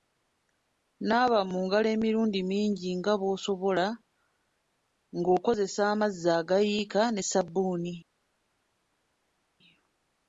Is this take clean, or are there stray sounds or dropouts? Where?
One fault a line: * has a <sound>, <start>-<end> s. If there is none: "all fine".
all fine